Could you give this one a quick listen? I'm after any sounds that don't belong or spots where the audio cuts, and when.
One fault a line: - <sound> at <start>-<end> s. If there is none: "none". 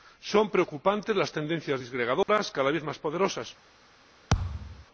- dropout at 2.2-2.3 s
- thud at 4.3-4.9 s